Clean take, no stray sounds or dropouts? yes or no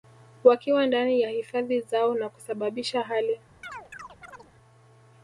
no